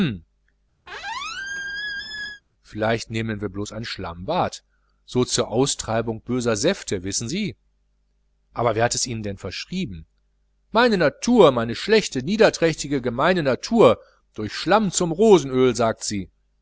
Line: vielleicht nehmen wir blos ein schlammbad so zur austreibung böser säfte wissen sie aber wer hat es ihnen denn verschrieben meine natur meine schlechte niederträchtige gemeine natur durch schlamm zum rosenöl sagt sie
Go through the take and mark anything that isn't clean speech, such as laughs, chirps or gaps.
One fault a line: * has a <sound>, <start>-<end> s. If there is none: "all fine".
* has a squeak, 0.9-2.4 s